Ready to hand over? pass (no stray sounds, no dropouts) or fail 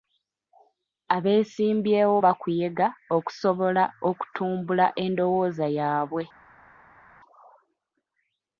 pass